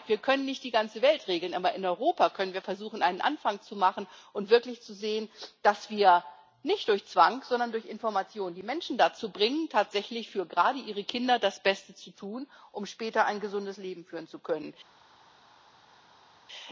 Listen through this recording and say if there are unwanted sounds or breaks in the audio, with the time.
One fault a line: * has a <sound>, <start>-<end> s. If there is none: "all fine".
all fine